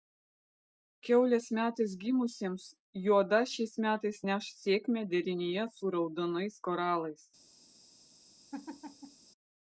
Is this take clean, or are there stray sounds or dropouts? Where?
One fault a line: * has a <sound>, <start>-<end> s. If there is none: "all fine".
* has a laugh, 8.5-9.3 s